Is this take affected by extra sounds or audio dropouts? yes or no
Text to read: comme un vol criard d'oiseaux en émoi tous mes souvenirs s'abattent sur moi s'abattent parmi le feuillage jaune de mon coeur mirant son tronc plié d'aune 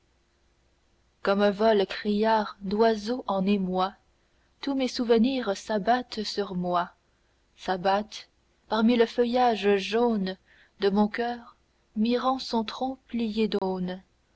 yes